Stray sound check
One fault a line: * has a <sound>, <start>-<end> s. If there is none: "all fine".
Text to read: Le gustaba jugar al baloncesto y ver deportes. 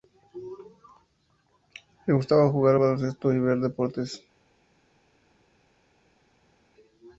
all fine